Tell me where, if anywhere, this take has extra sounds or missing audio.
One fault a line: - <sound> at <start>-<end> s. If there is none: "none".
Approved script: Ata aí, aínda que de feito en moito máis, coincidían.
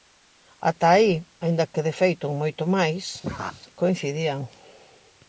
- laugh at 3.2-3.6 s